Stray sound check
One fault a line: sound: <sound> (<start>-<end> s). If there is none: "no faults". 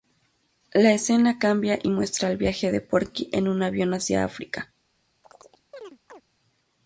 sound: chirp (5.2-6.2 s)